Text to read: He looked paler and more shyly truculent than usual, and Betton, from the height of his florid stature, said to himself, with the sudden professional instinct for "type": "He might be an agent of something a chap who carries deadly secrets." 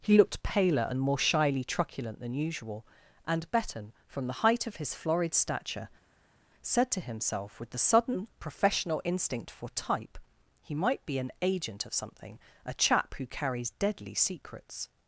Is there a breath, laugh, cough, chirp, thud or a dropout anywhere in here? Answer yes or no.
no